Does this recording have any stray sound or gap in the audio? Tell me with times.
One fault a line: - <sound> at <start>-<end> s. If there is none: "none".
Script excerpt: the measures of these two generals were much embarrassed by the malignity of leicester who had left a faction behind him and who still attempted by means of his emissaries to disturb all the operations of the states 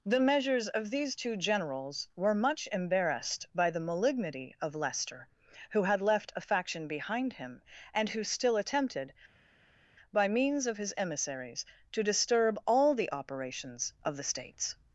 none